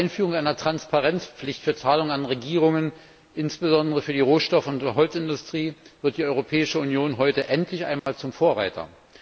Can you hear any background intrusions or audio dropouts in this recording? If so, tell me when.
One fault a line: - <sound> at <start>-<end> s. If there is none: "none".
- dropout at 8.0-8.1 s